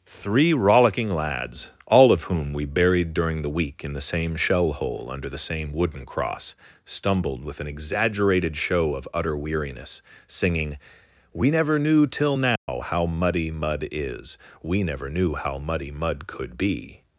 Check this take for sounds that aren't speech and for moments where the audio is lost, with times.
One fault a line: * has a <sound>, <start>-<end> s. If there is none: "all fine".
* has a dropout, 12.6-12.7 s